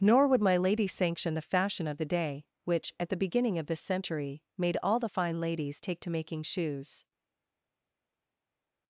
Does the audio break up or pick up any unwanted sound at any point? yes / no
no